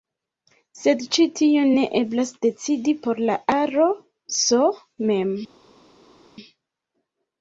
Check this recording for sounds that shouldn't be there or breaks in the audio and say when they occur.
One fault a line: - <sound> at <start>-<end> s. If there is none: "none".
none